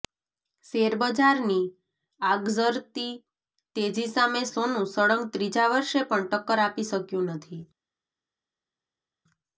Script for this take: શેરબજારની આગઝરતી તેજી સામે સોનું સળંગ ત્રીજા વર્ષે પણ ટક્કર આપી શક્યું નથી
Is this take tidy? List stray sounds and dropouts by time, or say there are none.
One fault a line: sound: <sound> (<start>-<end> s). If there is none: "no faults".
no faults